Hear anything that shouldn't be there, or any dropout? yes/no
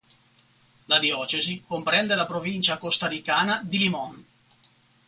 no